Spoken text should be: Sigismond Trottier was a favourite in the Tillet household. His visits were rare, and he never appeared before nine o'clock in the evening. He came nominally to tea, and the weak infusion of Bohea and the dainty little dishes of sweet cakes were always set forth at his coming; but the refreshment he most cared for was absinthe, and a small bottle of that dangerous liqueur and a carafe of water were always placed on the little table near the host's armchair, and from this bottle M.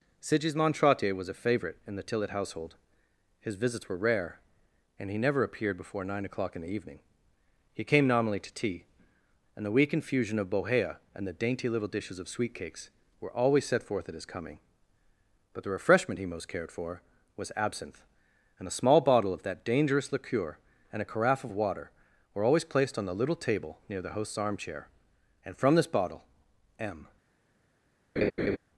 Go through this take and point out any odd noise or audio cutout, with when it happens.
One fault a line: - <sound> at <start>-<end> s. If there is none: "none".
- laugh at 28.2-28.6 s